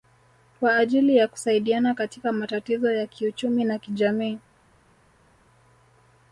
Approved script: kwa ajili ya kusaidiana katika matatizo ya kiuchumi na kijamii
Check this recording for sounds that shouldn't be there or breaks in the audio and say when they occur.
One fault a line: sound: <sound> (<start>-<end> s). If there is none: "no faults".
no faults